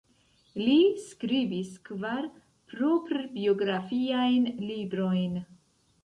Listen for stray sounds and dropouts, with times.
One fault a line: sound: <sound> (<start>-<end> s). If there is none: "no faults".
no faults